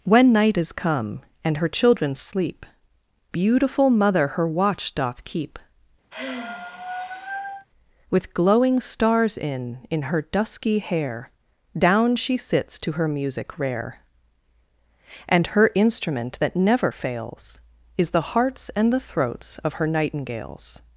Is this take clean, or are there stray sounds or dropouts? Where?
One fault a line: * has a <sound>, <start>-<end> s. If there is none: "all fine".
* has a sigh, 6.1-7.7 s